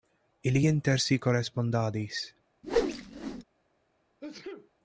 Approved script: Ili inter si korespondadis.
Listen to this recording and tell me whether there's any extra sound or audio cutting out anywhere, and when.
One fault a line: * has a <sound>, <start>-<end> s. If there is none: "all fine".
* has a whoosh, 2.6-3.4 s
* has a sneeze, 4.2-4.7 s